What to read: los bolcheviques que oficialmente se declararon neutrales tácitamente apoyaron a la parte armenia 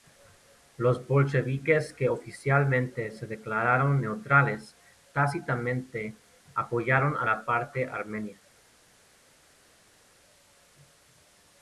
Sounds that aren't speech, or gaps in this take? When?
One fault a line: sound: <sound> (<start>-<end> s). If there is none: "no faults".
no faults